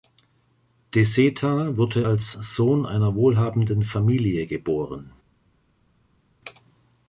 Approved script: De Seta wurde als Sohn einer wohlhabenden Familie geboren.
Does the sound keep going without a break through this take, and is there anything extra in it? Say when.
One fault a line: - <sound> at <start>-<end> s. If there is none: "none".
none